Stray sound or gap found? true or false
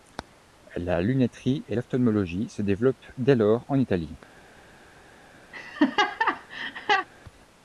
true